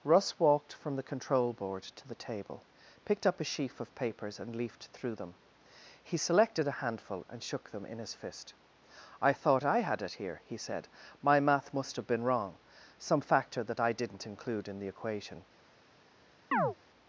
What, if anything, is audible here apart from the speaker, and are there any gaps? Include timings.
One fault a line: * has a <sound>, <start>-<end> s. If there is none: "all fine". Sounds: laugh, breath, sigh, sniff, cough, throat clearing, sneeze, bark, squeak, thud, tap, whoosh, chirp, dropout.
* has a chirp, 16.5-16.8 s